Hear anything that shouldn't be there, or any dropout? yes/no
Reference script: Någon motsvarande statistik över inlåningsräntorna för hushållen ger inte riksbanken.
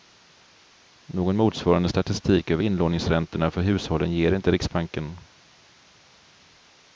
no